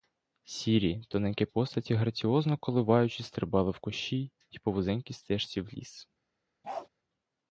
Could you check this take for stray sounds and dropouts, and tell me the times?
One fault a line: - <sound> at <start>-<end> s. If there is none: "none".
- bark at 6.6-6.9 s